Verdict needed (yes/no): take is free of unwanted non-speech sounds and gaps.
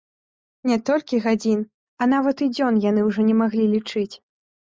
yes